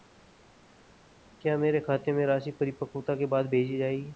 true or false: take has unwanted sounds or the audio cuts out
false